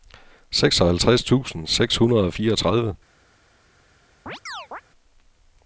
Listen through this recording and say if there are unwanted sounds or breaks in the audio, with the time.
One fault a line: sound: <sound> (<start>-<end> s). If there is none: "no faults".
sound: chirp (4.3-4.8 s)